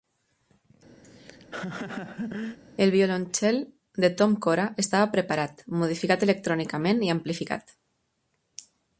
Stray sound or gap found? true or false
true